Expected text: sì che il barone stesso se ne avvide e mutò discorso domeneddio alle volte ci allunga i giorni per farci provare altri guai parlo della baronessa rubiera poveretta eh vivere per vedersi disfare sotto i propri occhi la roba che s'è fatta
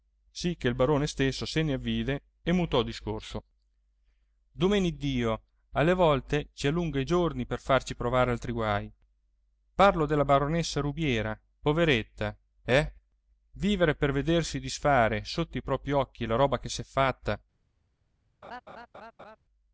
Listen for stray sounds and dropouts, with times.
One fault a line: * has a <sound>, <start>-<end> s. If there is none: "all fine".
* has a laugh, 18.4-19.4 s